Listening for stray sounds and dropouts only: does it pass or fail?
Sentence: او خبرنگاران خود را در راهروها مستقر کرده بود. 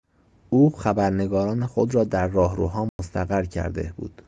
fail